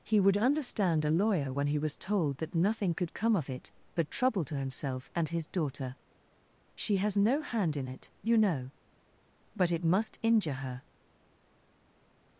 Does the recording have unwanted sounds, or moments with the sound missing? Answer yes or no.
no